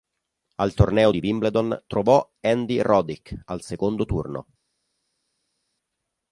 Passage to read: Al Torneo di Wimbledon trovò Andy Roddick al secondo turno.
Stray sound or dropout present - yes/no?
no